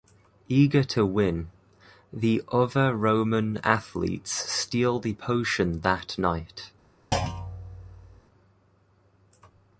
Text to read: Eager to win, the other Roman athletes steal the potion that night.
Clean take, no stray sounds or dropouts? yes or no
no